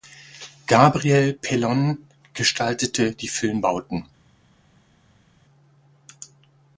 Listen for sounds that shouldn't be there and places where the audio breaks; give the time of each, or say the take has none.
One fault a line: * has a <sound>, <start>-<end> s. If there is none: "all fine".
all fine